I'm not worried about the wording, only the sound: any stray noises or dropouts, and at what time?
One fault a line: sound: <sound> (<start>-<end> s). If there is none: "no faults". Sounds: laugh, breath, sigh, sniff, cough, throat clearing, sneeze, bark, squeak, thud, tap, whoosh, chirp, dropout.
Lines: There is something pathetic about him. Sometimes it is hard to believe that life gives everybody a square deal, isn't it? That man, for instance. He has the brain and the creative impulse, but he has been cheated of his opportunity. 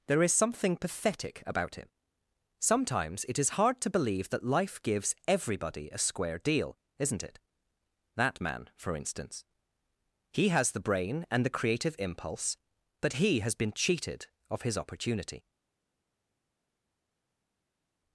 no faults